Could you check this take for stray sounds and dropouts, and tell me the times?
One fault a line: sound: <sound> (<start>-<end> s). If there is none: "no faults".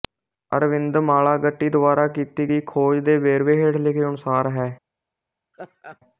sound: laugh (5.5-6.0 s)